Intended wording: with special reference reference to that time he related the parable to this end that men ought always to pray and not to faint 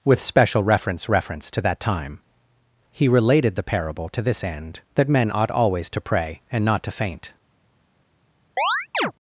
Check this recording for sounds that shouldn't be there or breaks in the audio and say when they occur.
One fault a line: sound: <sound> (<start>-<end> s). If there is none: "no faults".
sound: chirp (8.6-9.1 s)